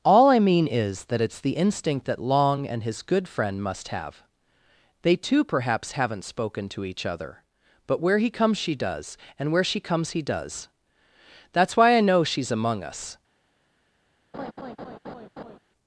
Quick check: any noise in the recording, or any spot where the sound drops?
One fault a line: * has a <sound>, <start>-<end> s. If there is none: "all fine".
* has a laugh, 14.3-15.6 s